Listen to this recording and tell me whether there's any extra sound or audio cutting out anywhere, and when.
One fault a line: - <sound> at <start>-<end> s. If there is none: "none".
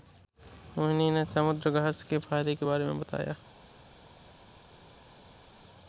none